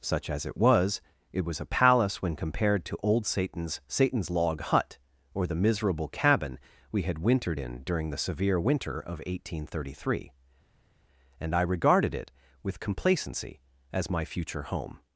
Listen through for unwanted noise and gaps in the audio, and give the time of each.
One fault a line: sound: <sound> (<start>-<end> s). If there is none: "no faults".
no faults